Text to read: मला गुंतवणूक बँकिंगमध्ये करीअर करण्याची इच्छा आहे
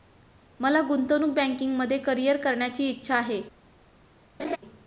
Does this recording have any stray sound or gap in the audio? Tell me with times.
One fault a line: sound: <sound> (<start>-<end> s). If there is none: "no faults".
sound: laugh (4.4-4.6 s)